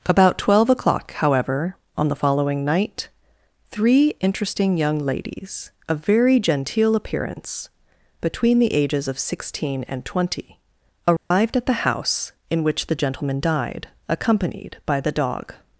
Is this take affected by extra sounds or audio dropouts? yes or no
yes